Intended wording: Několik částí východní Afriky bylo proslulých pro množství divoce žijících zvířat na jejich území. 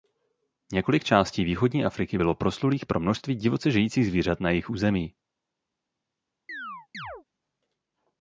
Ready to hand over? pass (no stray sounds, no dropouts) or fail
fail